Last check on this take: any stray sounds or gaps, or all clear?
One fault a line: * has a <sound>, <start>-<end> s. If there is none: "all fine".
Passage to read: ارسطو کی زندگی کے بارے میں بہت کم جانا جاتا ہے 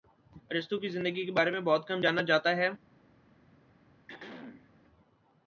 * has a throat clearing, 4.1-4.7 s